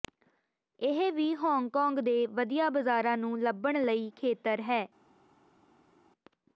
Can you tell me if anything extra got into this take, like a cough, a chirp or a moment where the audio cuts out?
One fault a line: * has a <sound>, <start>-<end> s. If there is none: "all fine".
all fine